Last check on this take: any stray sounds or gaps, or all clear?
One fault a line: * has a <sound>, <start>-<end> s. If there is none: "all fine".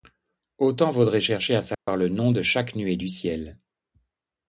* has a dropout, 1.7-1.9 s